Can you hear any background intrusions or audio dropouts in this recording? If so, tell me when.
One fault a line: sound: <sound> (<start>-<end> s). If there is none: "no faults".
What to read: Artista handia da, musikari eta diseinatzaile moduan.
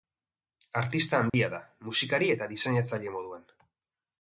sound: dropout (1.3-1.3 s)